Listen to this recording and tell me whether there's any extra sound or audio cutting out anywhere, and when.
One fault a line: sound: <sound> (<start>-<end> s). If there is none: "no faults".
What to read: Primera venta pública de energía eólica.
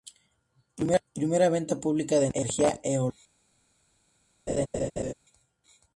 sound: laugh (4.5-5.1 s)